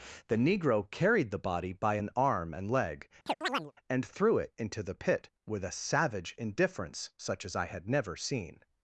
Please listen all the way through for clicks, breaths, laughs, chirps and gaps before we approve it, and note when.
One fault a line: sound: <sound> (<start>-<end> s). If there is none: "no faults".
sound: chirp (3.3-3.7 s)